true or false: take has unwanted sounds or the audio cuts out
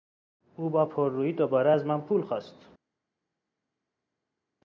false